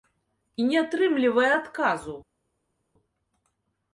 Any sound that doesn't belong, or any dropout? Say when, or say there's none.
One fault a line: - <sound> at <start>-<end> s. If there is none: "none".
none